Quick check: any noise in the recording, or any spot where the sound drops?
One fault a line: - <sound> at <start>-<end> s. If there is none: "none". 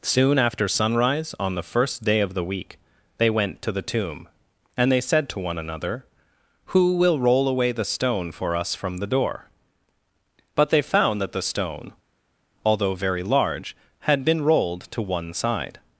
none